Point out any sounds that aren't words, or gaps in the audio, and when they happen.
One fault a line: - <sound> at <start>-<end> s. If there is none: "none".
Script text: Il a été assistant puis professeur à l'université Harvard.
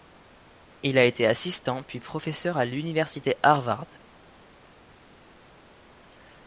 none